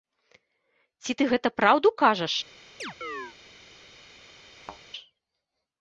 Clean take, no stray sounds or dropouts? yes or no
no